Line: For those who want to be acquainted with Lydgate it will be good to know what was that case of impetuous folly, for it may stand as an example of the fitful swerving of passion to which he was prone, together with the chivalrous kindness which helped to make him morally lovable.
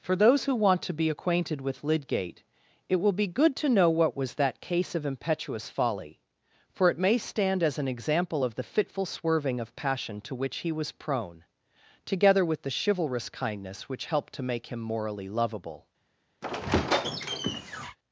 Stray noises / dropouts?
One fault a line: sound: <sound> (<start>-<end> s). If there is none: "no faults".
sound: squeak (16.4-18.0 s)